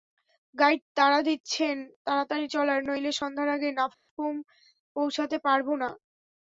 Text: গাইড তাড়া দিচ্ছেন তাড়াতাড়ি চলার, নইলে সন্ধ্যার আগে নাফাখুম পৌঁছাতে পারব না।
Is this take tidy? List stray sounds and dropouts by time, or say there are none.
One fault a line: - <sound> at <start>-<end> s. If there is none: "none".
- dropout at 3.9-4.1 s